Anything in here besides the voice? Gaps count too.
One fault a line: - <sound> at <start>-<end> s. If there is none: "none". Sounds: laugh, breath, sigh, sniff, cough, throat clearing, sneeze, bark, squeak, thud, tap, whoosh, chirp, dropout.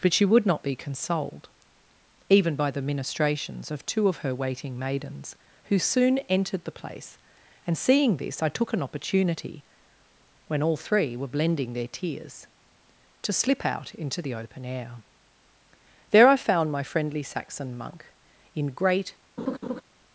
- laugh at 19.4-19.8 s